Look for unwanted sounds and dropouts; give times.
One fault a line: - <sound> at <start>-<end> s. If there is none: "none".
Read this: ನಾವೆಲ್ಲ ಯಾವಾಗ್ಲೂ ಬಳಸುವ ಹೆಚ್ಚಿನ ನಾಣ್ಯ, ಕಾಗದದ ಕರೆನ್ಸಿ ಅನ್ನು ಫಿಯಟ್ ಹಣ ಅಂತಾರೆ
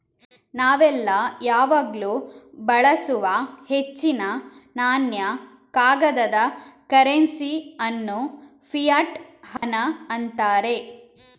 - dropout at 9.6-9.6 s